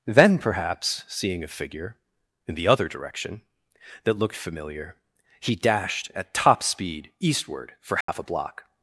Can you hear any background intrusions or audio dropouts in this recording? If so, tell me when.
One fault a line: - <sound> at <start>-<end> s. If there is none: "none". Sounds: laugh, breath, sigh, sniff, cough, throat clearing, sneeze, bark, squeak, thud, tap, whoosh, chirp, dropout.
- dropout at 8.0-8.1 s